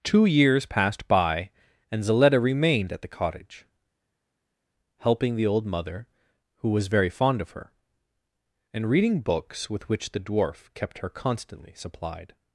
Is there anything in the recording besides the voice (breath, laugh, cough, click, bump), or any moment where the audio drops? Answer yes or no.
no